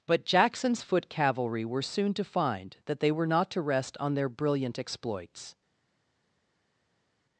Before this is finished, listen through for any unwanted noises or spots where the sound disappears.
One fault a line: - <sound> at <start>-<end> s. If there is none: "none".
none